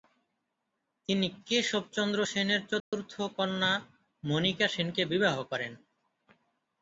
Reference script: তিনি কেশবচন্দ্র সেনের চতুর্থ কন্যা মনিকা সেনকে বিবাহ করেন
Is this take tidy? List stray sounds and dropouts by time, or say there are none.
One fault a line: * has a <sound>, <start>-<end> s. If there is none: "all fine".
* has a dropout, 2.8-2.9 s